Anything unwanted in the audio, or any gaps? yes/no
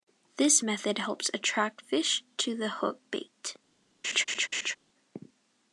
yes